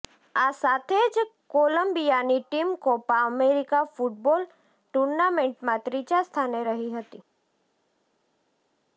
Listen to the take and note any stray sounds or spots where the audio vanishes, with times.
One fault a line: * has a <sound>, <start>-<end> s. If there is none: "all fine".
all fine